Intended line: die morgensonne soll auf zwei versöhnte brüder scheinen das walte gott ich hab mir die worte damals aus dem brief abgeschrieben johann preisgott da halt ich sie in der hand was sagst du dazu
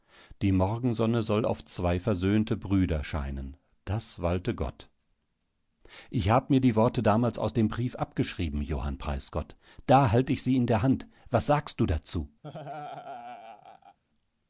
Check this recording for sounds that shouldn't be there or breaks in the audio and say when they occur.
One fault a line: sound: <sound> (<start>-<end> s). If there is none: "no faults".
sound: laugh (12.4-14.0 s)